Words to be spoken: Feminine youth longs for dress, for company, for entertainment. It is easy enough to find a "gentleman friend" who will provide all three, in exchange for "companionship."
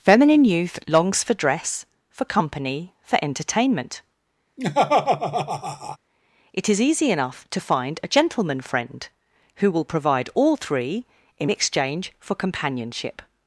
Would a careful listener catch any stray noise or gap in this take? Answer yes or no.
yes